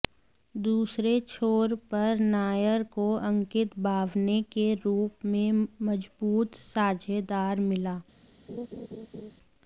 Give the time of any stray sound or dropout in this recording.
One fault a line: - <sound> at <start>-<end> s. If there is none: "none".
- laugh at 8.5-9.3 s